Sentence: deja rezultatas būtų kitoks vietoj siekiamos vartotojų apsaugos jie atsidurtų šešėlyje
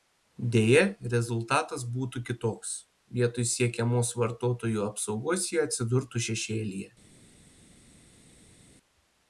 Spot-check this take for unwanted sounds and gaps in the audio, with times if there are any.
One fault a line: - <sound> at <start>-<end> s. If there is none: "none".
none